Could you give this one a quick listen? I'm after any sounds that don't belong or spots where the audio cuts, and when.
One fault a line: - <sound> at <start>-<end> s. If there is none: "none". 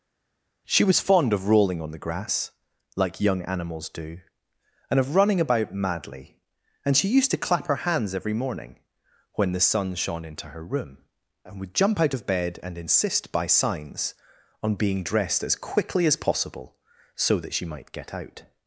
none